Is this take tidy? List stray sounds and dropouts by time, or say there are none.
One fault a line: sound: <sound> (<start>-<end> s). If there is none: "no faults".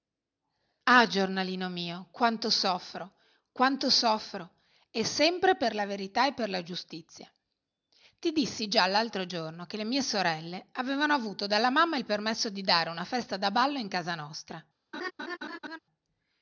sound: laugh (14.9-15.8 s)